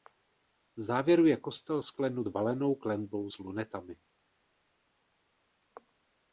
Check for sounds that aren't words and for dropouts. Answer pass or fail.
pass